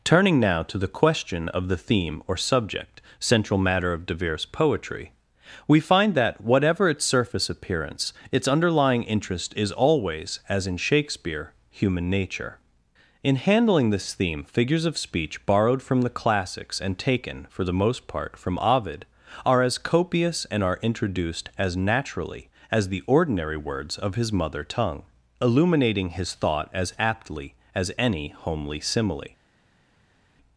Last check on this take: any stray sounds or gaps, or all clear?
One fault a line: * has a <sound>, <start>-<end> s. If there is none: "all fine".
all fine